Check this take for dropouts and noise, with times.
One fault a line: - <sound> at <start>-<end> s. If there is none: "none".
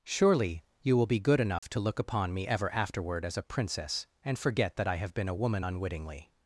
- dropout at 1.6-1.6 s